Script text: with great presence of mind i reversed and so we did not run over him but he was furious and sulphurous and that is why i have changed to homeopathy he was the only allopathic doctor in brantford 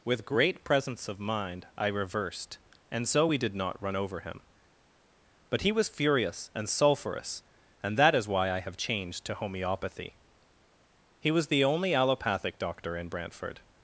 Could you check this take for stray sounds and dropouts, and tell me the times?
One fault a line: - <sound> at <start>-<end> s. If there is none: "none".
none